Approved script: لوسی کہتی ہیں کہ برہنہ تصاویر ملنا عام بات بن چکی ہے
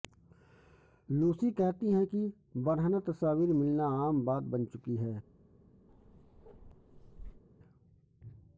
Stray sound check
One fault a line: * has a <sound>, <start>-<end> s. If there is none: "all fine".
* has a bark, 5.9-7.4 s